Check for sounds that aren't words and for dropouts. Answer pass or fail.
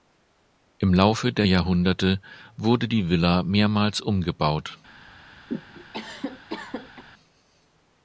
fail